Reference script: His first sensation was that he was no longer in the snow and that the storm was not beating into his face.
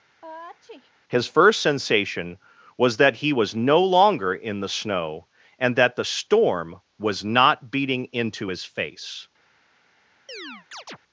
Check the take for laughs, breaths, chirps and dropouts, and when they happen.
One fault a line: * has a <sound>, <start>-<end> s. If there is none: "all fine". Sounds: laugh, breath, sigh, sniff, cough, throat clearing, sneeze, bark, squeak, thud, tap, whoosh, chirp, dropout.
* has a sneeze, 0.2-0.9 s
* has a chirp, 10.3-11.0 s